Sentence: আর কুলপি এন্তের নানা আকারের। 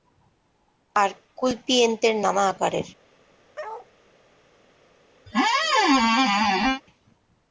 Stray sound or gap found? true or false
true